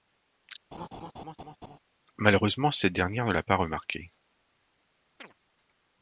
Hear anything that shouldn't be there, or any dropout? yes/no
yes